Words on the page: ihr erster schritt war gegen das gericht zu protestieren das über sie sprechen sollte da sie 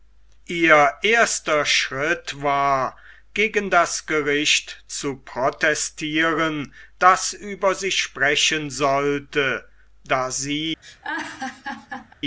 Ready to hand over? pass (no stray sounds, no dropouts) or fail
fail